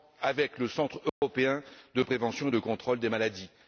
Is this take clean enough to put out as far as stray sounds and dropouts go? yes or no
no